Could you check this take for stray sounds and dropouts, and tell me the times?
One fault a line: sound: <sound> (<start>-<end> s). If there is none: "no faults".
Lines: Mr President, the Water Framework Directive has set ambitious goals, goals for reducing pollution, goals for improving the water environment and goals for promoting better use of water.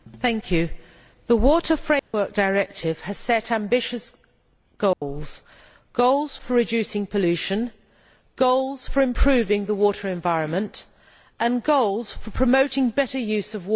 sound: dropout (2.0-2.1 s)
sound: dropout (4.9-5.0 s)